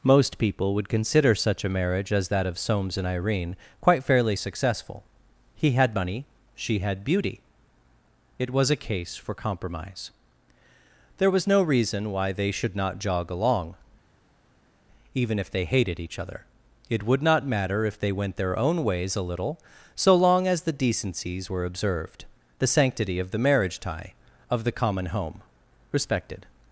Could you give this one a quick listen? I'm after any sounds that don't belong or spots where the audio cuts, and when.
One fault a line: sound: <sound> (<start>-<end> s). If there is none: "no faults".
no faults